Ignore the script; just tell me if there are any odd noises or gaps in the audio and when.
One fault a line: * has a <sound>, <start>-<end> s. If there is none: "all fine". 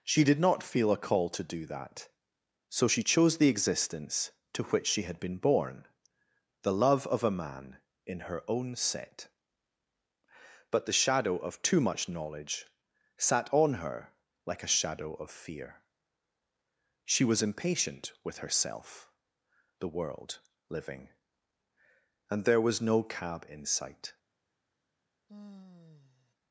* has a sigh, 25.3-26.3 s